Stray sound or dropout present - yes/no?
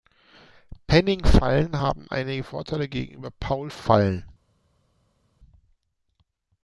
no